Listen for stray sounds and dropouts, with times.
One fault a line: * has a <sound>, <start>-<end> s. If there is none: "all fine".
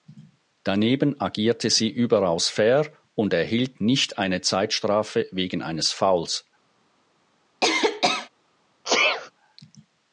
* has a cough, 7.6-8.3 s
* has a sneeze, 8.8-9.3 s